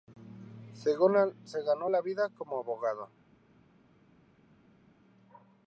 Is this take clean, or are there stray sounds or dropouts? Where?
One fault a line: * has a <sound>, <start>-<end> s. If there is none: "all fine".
all fine